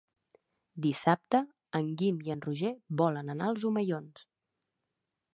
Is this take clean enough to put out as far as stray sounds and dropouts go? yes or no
yes